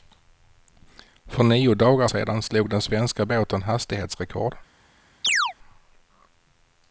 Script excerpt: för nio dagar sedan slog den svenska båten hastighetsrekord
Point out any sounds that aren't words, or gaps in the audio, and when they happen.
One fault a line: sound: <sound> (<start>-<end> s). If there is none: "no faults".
sound: chirp (5.2-5.5 s)